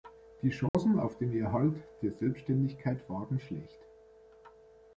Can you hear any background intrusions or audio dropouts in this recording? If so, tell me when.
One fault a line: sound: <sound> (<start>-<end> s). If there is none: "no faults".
sound: dropout (0.7-0.7 s)